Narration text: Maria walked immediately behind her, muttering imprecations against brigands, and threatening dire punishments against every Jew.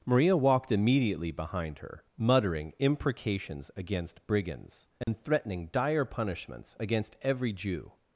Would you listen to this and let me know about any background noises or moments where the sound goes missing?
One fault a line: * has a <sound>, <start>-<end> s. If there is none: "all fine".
* has a dropout, 5.0-5.1 s